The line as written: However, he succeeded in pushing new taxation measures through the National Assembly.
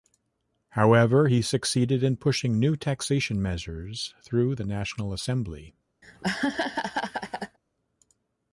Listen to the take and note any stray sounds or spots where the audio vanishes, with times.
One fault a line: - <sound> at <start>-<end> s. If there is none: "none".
- laugh at 6.0-7.6 s